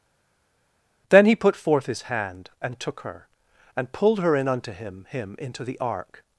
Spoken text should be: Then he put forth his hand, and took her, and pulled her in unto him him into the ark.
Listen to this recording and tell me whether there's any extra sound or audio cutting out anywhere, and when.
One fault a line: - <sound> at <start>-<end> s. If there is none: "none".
none